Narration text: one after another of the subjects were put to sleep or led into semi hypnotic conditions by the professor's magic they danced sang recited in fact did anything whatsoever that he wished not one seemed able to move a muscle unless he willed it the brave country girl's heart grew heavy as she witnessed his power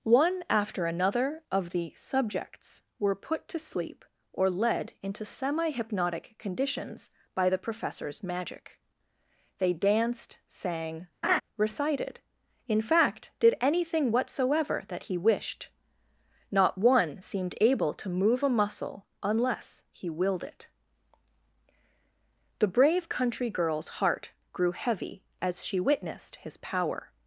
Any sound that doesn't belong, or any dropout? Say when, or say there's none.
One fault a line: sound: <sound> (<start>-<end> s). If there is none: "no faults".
sound: laugh (11.2-11.4 s)